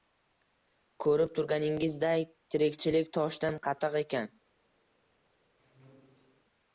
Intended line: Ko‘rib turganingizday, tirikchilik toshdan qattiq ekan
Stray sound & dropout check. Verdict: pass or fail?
fail